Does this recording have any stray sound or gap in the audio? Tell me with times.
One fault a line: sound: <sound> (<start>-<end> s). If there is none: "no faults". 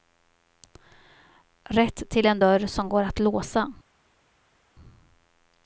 no faults